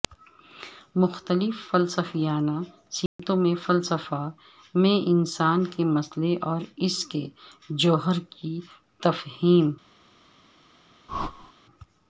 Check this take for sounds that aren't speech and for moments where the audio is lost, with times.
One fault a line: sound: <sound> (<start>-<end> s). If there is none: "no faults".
sound: dropout (3.1-3.2 s)
sound: whoosh (11.1-11.5 s)